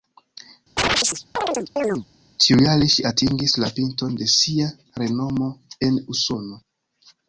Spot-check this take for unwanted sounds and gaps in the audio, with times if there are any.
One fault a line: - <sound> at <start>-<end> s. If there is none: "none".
- chirp at 0.8-2.1 s